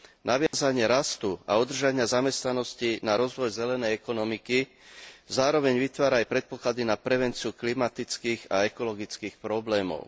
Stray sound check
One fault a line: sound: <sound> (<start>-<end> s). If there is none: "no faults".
sound: dropout (0.5-0.5 s)